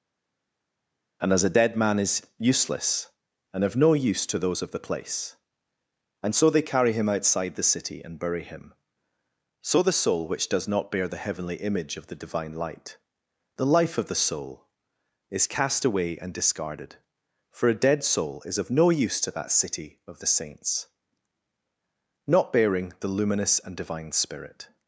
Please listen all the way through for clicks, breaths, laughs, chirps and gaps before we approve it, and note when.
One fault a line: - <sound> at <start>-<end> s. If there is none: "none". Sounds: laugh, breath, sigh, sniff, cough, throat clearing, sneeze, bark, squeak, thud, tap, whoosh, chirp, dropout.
none